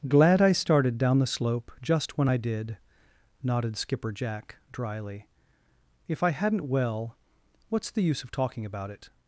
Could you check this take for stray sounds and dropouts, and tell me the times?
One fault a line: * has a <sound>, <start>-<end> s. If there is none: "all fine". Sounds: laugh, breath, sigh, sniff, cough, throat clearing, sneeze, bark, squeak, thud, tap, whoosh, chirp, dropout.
all fine